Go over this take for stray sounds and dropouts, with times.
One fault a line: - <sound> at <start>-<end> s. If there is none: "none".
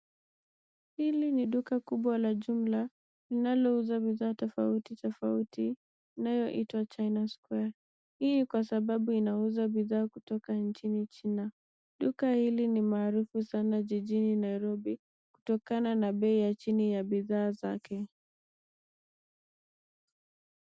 none